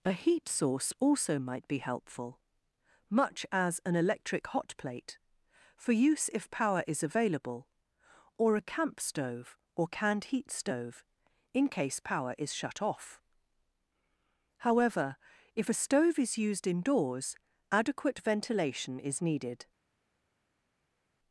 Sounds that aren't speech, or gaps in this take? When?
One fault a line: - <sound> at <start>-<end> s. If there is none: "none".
none